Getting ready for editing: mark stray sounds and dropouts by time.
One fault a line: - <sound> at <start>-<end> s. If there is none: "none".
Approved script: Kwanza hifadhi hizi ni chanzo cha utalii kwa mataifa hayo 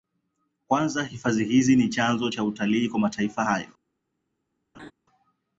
- laugh at 4.7-4.9 s